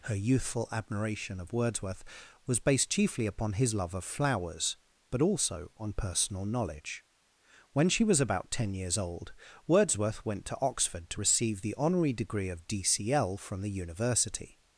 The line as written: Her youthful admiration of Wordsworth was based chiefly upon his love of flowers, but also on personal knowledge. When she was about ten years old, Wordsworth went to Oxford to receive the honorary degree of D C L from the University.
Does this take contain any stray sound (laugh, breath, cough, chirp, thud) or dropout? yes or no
no